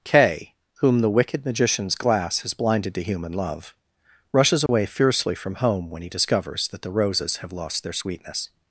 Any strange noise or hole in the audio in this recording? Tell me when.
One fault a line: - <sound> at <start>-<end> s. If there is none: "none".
- dropout at 4.7-4.7 s